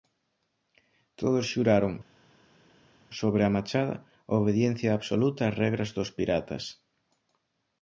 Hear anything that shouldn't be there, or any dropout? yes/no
no